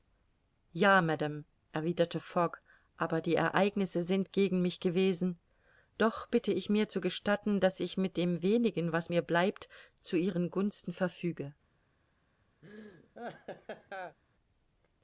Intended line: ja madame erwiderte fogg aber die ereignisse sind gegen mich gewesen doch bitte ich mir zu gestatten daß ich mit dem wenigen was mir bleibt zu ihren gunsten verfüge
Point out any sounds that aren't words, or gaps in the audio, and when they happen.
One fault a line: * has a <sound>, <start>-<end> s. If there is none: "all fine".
* has a laugh, 12.6-14.2 s